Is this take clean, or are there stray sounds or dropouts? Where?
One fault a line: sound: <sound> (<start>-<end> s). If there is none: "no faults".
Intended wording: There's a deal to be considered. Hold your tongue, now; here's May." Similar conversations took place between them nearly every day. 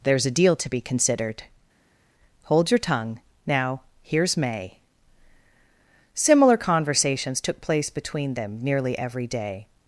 no faults